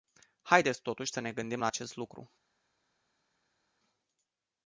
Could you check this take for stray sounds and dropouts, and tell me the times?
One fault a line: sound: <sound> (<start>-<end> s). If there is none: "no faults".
no faults